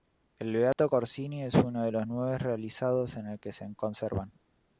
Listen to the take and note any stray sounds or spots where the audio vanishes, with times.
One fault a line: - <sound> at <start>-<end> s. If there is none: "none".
- dropout at 0.7-0.8 s